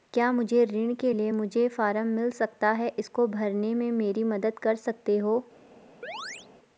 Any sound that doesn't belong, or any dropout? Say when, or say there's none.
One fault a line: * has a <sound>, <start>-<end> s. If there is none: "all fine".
* has a chirp, 6.0-6.5 s